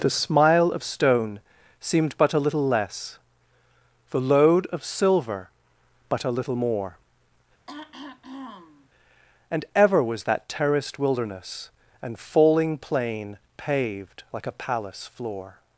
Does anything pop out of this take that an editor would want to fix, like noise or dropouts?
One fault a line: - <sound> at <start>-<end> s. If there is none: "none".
- throat clearing at 7.7-8.9 s